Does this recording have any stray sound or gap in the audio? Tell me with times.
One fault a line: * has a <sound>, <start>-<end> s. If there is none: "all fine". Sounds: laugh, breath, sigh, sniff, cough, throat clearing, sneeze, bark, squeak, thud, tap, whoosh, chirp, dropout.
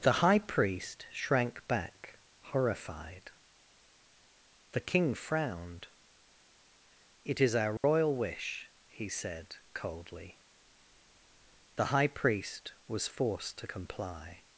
* has a dropout, 7.8-7.8 s